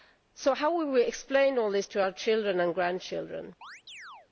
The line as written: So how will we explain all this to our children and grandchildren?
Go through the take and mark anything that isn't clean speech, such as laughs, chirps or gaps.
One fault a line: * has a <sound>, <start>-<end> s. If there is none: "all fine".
* has a chirp, 3.6-4.3 s